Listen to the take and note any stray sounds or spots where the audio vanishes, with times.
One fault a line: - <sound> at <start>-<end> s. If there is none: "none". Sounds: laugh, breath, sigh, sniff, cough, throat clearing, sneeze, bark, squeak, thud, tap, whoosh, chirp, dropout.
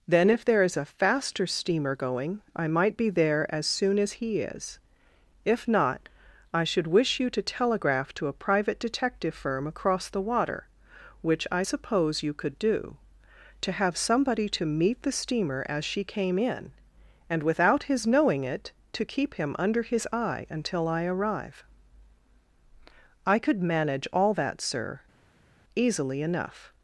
none